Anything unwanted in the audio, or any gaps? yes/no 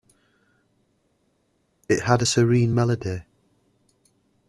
no